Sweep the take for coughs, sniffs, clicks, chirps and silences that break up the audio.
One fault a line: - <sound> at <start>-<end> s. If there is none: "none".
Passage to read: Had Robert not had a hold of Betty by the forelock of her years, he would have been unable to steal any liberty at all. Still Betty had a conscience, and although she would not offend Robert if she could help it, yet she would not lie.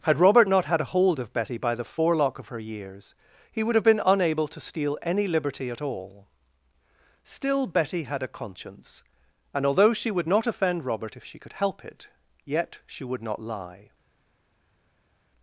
none